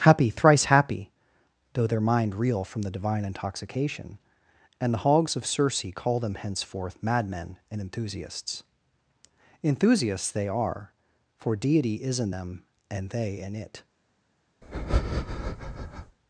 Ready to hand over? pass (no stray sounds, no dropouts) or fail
fail